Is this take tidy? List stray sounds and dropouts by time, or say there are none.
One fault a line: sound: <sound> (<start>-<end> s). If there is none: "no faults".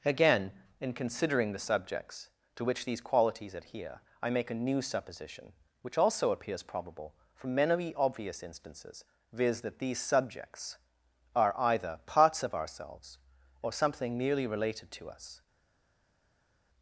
no faults